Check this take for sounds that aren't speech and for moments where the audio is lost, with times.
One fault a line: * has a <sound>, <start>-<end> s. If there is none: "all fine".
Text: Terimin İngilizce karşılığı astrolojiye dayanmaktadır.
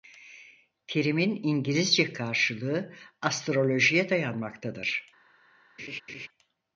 * has a laugh, 5.8-6.3 s